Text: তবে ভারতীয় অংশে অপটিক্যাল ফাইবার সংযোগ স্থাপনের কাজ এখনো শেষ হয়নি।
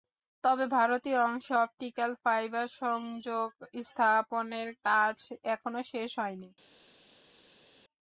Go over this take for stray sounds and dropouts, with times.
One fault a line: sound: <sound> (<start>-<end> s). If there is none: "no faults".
no faults